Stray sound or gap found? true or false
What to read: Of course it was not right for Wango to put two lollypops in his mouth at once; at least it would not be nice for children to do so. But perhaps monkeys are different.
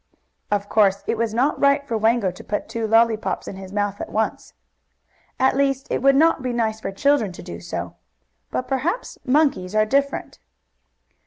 false